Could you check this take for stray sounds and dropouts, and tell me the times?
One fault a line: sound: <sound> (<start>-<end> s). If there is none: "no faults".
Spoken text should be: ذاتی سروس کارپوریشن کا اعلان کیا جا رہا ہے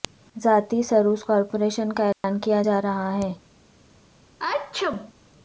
sound: dropout (2.1-2.2 s)
sound: sneeze (4.4-5.1 s)